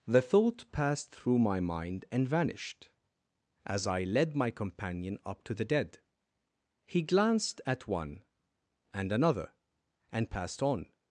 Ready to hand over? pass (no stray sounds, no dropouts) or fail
pass